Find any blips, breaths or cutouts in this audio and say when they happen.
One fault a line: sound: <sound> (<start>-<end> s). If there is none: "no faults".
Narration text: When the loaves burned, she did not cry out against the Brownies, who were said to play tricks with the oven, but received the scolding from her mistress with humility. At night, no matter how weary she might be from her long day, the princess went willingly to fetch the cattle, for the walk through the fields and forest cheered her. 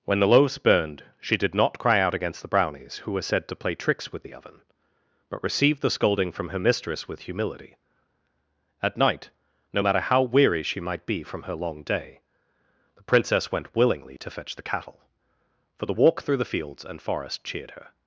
no faults